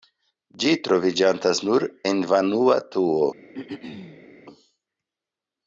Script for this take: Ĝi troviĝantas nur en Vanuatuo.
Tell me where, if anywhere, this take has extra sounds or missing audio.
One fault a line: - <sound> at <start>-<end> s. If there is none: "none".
- throat clearing at 3.5-4.3 s